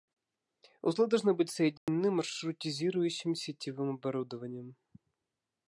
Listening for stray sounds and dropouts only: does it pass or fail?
fail